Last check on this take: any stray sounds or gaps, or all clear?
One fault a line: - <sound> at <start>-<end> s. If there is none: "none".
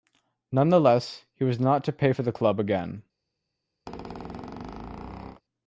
- squeak at 3.9-5.4 s